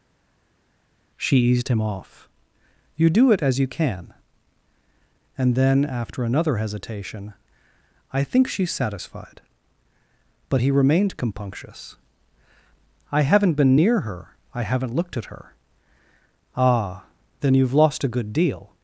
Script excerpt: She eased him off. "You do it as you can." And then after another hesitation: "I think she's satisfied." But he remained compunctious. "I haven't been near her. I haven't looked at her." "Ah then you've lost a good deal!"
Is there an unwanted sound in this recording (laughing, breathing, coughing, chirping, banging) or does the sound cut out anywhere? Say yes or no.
no